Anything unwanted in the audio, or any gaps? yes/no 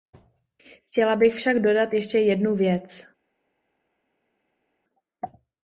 no